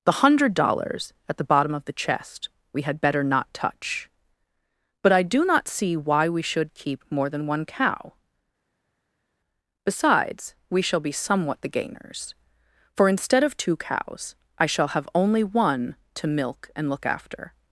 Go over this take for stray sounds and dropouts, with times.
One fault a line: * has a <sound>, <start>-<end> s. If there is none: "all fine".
all fine